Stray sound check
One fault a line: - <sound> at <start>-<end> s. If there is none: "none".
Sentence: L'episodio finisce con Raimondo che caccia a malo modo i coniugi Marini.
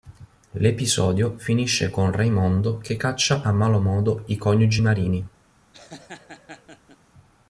- laugh at 5.7-7.0 s